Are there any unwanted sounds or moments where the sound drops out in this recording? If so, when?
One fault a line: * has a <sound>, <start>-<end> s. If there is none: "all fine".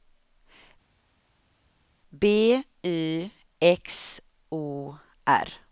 all fine